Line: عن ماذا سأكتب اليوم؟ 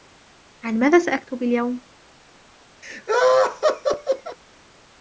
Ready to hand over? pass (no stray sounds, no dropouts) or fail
fail